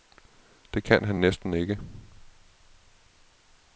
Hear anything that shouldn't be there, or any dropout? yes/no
no